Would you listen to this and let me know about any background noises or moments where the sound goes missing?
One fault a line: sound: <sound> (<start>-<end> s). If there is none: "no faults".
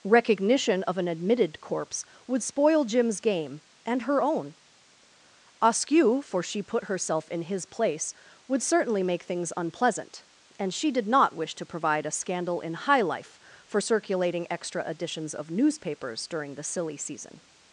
no faults